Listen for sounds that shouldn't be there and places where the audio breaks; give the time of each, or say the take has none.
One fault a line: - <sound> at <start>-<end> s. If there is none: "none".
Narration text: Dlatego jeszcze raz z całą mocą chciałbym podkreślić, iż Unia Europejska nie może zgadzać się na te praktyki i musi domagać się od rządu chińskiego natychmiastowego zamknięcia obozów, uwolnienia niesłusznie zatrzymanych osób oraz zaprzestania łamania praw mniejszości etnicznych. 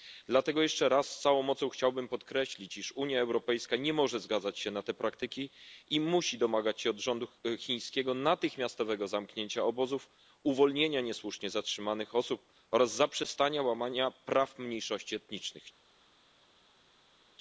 none